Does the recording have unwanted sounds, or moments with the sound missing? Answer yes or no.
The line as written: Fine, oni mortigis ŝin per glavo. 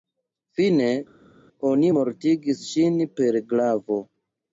no